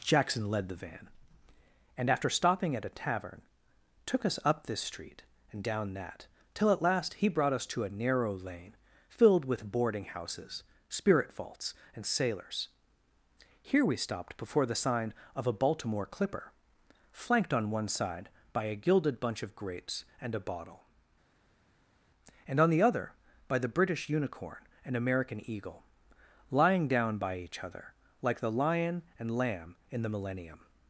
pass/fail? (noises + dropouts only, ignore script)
pass